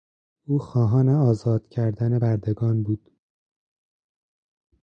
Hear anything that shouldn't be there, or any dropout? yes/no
no